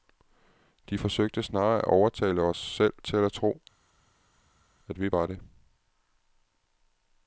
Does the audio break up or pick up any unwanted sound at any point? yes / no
no